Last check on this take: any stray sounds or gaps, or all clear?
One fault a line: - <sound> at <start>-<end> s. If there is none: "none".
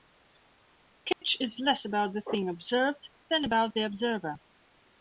- dropout at 1.1-1.2 s